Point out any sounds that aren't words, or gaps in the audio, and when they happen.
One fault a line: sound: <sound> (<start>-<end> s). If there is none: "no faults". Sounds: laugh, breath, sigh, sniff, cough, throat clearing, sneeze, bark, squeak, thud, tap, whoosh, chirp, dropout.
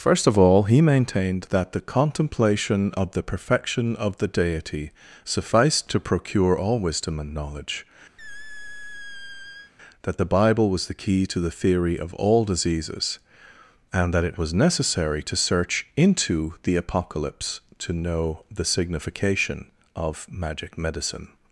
sound: squeak (8.2-9.7 s)